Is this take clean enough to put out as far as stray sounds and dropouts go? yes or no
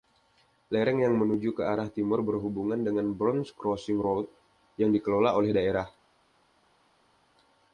yes